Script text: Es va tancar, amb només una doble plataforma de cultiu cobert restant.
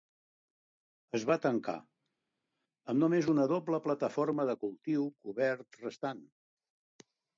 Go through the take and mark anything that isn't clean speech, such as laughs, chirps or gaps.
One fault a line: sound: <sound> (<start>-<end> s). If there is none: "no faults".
no faults